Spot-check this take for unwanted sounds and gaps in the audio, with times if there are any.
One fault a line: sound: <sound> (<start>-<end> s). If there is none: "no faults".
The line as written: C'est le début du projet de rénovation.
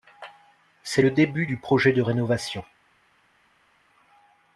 no faults